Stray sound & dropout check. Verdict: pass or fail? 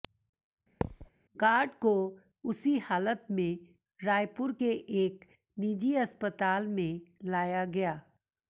fail